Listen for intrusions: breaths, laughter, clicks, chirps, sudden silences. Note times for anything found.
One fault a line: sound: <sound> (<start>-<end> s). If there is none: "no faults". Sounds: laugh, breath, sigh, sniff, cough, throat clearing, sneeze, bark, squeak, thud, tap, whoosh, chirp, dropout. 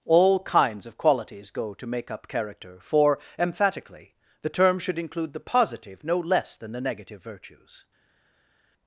no faults